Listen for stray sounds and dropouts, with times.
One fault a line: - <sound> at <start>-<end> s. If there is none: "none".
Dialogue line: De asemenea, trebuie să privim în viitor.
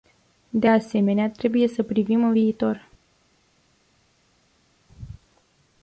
none